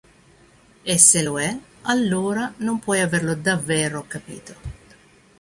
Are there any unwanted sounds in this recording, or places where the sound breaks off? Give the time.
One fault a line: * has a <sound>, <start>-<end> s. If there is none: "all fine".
all fine